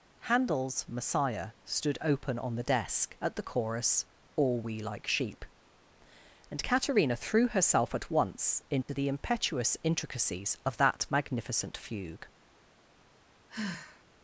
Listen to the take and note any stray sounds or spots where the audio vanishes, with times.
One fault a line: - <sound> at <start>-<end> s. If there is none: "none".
- dropout at 8.8-8.9 s
- sigh at 13.5-14.0 s